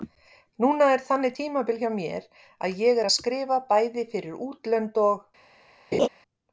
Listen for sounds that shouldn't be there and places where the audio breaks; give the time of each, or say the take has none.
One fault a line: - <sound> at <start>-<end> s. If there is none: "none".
- laugh at 5.9-6.1 s